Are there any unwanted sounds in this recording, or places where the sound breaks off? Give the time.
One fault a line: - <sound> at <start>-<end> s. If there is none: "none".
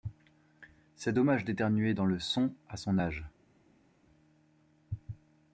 none